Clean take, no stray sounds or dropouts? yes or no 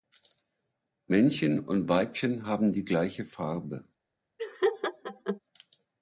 no